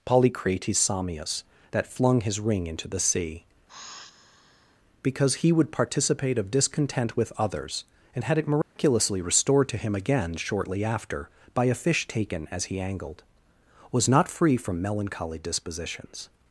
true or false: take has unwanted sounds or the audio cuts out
true